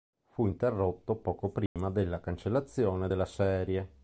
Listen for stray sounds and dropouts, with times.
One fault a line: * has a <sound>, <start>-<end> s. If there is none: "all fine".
* has a dropout, 1.7-1.8 s